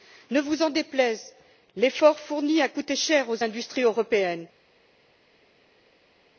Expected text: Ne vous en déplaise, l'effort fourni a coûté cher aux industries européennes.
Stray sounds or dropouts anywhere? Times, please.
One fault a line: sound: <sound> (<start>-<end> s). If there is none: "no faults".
no faults